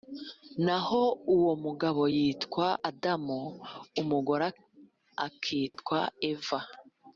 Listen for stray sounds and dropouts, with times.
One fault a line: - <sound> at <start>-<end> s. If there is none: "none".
- dropout at 5.7-5.8 s